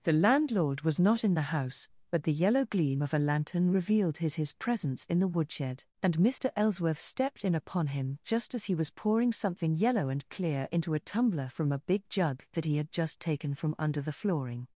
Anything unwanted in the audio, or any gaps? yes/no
no